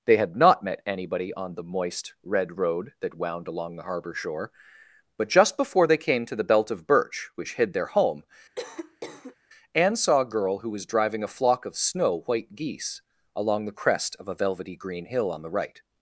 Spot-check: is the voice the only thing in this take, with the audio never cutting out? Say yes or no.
no